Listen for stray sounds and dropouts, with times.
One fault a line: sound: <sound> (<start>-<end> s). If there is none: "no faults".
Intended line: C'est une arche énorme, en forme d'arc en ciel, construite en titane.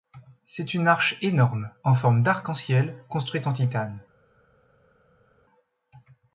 no faults